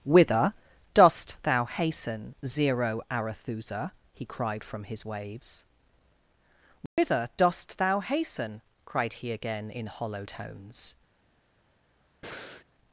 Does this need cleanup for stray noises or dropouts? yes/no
yes